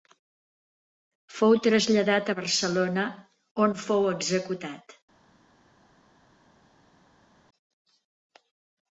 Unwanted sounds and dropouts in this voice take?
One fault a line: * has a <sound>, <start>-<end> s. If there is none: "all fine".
all fine